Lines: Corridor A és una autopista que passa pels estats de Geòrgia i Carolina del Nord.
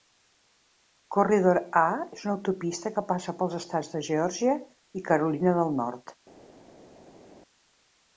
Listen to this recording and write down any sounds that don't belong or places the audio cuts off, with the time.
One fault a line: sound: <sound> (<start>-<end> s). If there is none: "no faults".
no faults